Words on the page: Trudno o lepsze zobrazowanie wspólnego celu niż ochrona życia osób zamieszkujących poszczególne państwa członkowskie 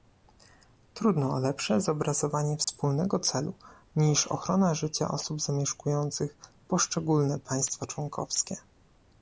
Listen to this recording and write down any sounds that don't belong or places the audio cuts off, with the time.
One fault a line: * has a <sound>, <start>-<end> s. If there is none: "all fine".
* has a dropout, 2.6-2.7 s